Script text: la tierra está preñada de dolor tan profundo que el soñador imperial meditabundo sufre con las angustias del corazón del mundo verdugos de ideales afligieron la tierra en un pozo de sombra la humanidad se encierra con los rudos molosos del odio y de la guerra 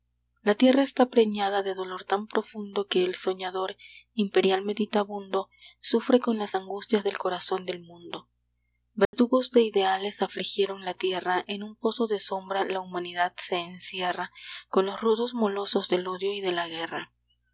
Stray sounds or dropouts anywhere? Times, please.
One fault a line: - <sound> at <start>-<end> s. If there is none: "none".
- dropout at 9.1-9.1 s